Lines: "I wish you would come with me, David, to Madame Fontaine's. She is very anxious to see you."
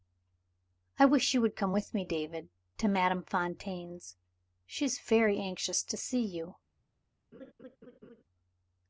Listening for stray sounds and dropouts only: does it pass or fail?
fail